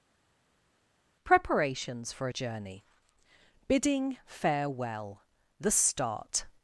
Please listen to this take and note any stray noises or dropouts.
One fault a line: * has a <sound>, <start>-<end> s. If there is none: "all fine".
all fine